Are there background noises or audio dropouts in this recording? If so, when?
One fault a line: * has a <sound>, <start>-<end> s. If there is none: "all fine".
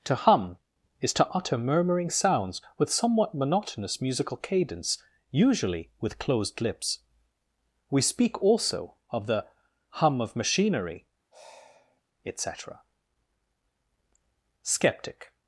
* has a sigh, 11.3-12.0 s